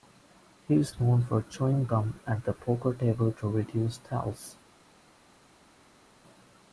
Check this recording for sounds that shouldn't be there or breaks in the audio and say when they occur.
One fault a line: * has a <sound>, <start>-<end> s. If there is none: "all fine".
all fine